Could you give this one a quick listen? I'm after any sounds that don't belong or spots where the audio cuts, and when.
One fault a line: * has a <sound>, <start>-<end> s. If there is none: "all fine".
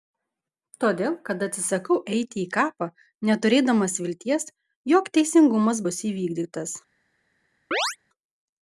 * has a chirp, 7.7-8.0 s